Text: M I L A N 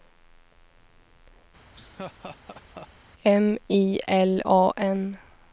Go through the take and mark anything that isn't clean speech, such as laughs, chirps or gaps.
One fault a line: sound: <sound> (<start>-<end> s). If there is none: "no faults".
sound: laugh (1.7-2.9 s)